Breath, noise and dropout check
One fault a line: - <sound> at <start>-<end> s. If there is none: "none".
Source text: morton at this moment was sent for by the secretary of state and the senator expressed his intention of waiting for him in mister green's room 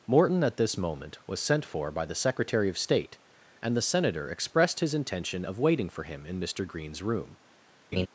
- laugh at 7.9-8.1 s